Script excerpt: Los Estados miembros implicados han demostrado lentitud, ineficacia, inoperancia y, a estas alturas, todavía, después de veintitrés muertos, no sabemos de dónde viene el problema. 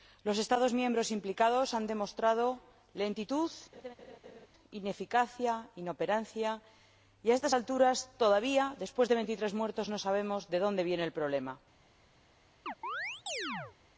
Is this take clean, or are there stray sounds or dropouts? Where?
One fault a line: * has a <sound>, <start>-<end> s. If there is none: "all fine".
* has a laugh, 3.7-4.5 s
* has a chirp, 12.7-13.8 s